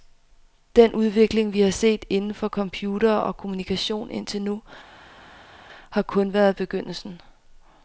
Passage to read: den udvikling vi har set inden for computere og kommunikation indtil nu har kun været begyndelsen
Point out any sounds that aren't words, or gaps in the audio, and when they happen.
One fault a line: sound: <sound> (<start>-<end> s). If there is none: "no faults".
no faults